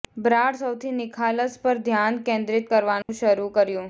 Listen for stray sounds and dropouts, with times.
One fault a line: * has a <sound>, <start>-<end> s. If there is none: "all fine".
* has a dropout, 3.0-3.1 s